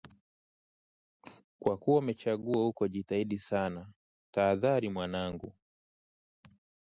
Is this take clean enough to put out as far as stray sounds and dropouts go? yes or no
yes